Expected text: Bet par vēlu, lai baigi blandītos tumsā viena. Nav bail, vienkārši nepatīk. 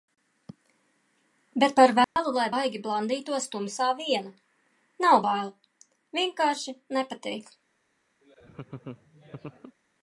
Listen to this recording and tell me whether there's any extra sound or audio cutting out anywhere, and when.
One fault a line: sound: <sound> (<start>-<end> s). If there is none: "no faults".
sound: dropout (2.0-2.2 s)
sound: laugh (8.2-9.8 s)